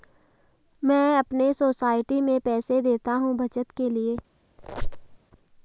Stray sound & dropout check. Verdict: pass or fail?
fail